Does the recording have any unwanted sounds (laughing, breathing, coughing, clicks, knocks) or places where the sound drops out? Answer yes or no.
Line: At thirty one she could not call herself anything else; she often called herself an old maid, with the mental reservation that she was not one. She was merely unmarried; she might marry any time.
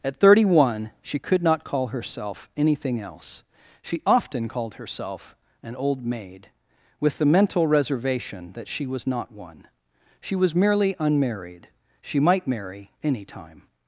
no